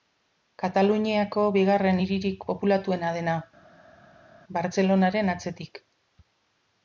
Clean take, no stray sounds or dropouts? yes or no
yes